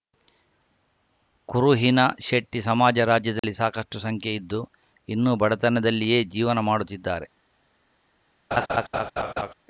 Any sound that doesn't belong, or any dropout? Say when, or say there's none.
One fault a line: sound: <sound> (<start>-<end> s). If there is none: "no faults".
sound: dropout (3.4-3.4 s)
sound: laugh (8.5-9.5 s)